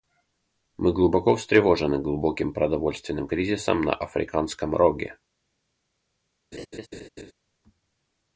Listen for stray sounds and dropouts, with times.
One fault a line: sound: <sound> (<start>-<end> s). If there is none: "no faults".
sound: laugh (6.5-7.3 s)